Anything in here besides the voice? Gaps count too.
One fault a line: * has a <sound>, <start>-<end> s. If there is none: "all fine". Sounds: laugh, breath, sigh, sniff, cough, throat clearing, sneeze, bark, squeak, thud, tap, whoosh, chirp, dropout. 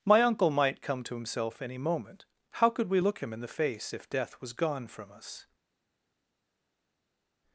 all fine